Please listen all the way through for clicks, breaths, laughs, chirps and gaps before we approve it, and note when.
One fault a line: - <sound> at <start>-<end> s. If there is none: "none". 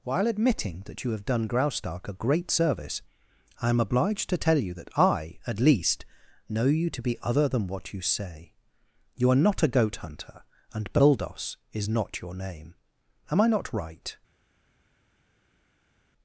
none